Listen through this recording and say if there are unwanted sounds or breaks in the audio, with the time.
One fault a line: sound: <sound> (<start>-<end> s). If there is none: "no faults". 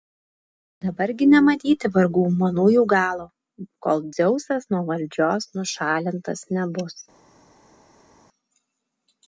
no faults